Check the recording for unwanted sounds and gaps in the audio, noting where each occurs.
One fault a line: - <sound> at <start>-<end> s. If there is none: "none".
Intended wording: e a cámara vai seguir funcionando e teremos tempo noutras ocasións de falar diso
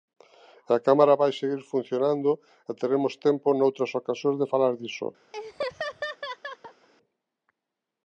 - laugh at 5.3-6.9 s